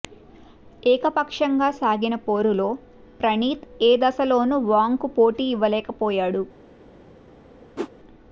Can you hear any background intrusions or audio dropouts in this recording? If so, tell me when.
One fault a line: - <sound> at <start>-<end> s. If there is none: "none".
- whoosh at 7.8-7.9 s